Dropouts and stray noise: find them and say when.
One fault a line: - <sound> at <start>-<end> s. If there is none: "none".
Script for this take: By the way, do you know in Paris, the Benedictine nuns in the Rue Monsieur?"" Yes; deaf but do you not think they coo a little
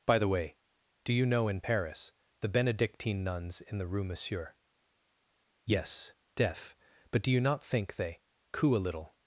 none